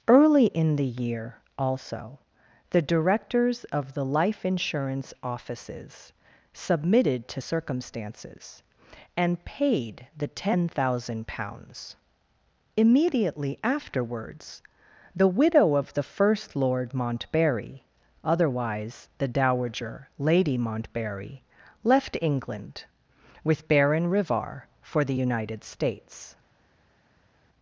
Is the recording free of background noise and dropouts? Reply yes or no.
yes